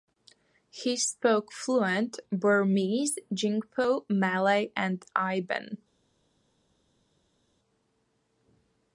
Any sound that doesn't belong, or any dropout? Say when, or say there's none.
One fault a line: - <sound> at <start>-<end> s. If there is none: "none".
none